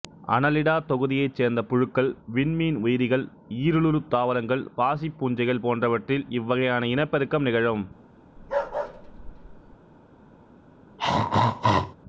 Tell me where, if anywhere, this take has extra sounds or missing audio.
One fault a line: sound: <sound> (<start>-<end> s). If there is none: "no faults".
sound: bark (8.4-9.8 s)
sound: throat clearing (11.0-12.0 s)